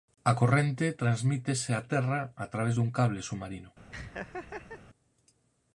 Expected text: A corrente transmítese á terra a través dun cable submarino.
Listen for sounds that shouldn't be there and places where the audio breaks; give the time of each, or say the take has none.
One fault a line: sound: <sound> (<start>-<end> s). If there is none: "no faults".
sound: laugh (3.9-4.8 s)